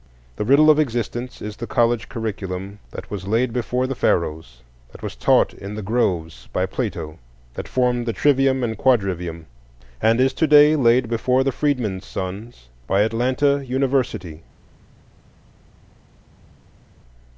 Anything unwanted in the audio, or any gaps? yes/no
no